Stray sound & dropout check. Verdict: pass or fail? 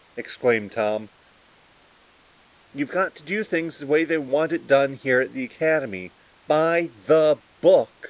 pass